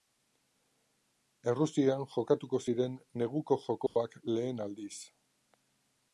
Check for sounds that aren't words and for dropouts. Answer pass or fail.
fail